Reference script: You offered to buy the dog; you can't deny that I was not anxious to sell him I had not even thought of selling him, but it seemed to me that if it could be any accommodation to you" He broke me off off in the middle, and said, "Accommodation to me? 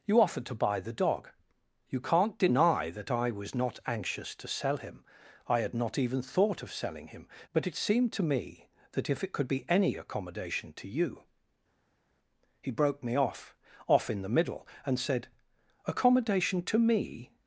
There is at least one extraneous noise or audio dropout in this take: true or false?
false